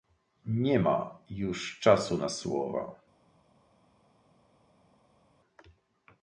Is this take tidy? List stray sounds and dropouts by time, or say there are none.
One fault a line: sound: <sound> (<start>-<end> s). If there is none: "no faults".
no faults